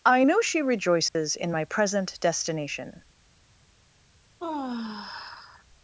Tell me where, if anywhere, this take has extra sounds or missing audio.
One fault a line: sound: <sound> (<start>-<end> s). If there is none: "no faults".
sound: dropout (1.1-1.2 s)
sound: sigh (4.4-5.6 s)